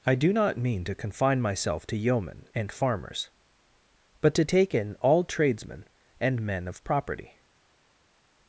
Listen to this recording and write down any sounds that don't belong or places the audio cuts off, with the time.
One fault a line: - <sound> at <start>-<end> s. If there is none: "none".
none